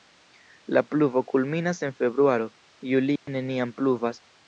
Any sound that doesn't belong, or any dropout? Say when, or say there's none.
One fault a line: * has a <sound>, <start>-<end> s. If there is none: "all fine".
* has a dropout, 3.2-3.3 s